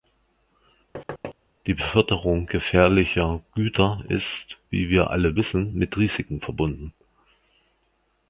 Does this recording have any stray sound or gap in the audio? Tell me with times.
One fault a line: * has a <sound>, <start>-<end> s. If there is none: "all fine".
* has a thud, 0.9-1.3 s